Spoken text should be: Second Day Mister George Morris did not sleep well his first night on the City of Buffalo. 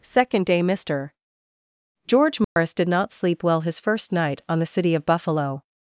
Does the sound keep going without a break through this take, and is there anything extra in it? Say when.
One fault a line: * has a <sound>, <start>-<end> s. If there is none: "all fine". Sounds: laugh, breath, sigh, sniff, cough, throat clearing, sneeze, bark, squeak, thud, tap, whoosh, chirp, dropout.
* has a dropout, 2.4-2.6 s